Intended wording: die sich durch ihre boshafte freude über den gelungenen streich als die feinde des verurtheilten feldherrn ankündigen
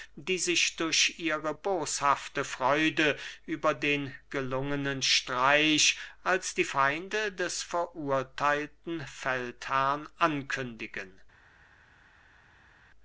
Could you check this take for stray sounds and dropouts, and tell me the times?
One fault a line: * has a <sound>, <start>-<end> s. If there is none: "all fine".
all fine